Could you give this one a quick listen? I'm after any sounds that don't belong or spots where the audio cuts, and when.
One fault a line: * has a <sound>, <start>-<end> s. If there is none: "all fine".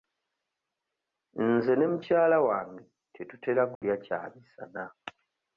* has a dropout, 3.8-3.8 s